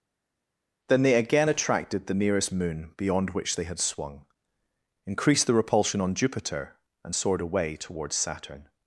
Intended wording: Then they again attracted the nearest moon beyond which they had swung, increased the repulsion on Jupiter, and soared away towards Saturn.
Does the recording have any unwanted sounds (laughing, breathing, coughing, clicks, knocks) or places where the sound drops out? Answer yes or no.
no